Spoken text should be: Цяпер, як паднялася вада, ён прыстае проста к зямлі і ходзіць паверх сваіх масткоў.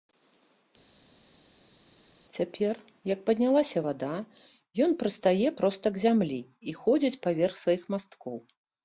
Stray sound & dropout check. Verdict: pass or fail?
pass